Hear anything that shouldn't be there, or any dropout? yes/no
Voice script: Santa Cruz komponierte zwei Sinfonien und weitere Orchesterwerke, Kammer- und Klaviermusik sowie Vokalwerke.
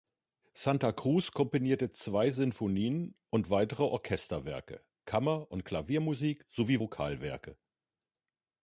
no